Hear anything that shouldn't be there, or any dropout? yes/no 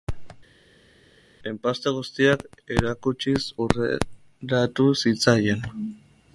no